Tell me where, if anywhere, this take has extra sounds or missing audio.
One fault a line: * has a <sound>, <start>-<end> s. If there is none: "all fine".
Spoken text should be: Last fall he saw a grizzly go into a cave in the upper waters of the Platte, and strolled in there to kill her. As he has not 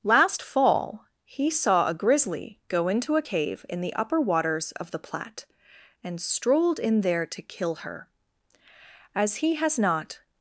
all fine